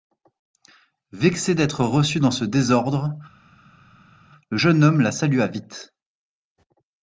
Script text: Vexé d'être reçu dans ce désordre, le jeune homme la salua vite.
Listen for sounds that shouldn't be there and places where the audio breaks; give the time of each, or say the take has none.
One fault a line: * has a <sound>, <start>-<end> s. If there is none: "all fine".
all fine